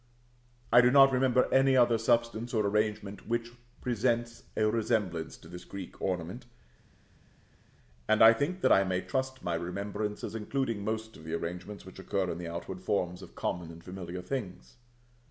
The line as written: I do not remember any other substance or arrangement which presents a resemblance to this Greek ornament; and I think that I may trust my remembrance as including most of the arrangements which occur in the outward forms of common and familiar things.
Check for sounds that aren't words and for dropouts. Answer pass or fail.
pass